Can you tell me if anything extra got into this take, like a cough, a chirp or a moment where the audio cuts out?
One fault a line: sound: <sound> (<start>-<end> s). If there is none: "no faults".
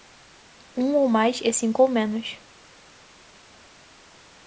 no faults